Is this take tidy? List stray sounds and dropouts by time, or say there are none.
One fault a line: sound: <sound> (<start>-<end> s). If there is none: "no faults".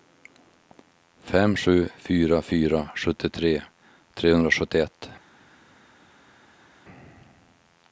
no faults